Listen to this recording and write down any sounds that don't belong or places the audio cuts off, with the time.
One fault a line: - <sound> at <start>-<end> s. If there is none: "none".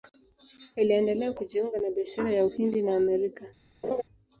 - laugh at 3.8-4.0 s